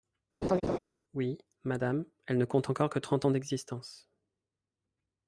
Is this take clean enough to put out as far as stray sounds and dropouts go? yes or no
no